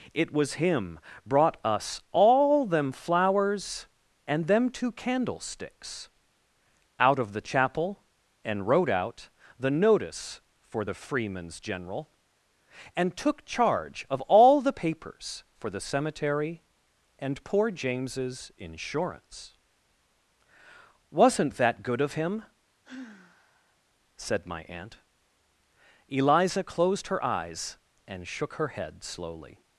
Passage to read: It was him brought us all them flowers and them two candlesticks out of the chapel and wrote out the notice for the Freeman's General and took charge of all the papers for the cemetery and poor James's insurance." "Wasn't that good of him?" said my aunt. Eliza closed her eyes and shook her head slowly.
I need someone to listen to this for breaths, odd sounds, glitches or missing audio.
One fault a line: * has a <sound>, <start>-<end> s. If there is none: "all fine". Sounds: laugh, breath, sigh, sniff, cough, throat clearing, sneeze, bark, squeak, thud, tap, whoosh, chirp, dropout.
* has a sigh, 22.8-23.8 s